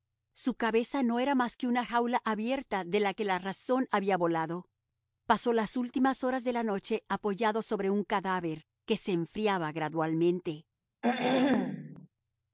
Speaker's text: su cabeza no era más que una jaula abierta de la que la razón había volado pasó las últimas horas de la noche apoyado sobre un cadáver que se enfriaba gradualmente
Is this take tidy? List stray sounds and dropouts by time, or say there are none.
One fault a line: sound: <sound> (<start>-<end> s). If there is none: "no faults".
sound: throat clearing (11.0-12.1 s)